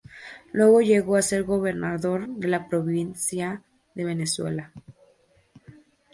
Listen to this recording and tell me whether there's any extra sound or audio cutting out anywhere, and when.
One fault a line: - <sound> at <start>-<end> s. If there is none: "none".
none